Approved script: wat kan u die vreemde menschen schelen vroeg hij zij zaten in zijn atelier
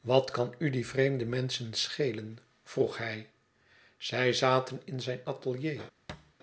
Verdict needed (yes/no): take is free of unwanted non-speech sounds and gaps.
no